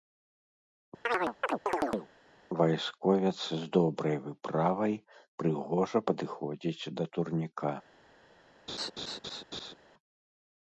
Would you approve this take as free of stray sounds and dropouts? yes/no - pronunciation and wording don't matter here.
no